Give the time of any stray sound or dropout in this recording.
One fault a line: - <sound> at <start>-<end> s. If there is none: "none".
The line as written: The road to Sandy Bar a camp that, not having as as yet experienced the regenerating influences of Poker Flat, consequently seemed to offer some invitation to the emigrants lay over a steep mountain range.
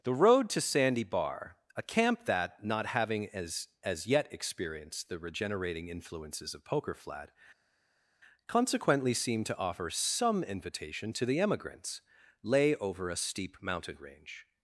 none